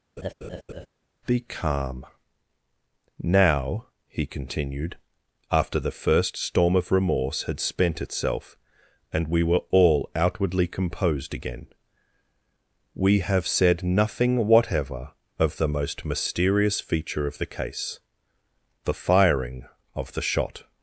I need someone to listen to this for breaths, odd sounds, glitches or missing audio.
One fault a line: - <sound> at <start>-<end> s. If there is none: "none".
- laugh at 0.2-0.9 s